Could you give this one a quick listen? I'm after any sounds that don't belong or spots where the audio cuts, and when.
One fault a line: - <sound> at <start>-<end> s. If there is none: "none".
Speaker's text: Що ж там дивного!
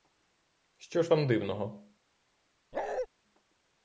- bark at 2.7-3.1 s